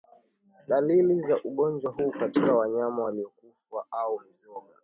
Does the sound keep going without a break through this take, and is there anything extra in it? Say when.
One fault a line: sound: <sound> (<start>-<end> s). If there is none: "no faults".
no faults